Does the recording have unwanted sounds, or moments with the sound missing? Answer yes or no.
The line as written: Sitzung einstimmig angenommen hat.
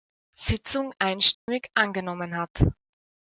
yes